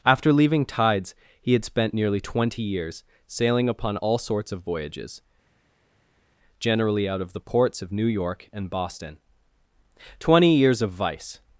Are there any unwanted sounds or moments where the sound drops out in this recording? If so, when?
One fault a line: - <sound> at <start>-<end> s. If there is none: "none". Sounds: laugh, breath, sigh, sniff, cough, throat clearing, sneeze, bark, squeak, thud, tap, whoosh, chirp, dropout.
none